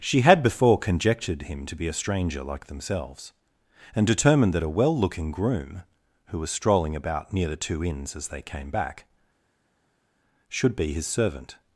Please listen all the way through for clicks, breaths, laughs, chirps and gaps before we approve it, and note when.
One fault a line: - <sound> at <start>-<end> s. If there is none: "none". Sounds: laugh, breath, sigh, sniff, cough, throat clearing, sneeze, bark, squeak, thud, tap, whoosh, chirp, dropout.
none